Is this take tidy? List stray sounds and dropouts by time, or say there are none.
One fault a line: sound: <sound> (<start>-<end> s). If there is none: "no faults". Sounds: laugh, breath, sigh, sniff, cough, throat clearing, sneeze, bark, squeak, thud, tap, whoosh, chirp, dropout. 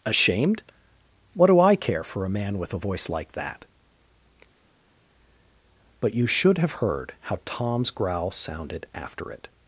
no faults